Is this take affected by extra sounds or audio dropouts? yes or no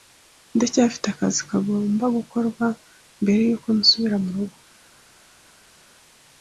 no